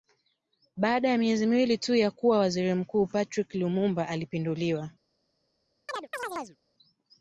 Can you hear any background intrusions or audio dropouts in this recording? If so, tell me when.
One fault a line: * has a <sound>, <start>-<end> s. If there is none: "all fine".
* has a chirp, 5.9-6.6 s